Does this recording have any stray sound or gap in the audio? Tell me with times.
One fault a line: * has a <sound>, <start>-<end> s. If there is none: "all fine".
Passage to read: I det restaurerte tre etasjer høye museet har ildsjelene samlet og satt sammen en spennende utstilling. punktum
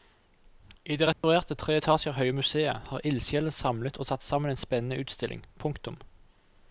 * has a dropout, 1.1-1.2 s